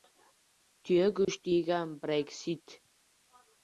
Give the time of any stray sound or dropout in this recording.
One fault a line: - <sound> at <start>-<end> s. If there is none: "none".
- dropout at 1.2-1.3 s